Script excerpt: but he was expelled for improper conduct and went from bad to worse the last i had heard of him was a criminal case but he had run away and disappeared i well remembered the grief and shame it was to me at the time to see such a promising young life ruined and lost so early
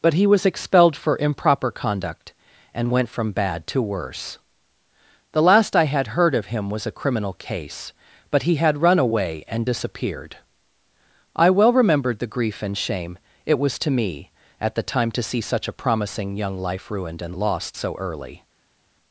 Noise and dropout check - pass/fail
pass